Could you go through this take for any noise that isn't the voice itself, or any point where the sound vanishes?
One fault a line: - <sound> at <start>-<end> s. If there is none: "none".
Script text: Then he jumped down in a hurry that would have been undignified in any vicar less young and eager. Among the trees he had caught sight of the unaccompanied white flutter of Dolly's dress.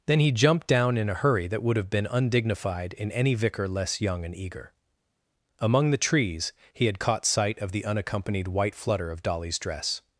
none